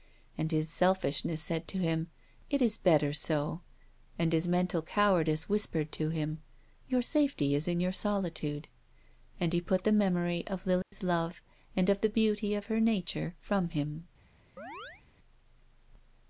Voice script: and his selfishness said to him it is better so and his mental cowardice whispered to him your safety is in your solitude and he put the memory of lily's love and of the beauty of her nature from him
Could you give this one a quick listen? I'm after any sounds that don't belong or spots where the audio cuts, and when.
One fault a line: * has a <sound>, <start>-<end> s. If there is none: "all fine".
* has a dropout, 10.8-10.9 s
* has a chirp, 14.6-15.0 s